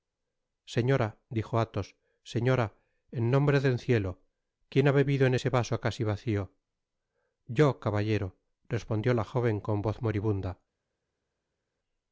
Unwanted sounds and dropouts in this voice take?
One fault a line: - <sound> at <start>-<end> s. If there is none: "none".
none